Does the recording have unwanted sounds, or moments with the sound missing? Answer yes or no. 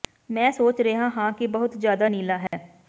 yes